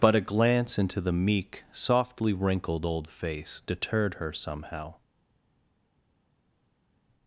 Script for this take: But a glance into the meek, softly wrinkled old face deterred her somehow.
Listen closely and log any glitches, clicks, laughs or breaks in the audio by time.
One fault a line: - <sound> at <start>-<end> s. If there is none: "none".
none